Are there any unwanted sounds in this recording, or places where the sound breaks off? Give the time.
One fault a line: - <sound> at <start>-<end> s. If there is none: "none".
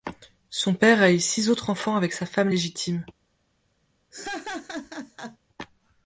- laugh at 4.1-5.4 s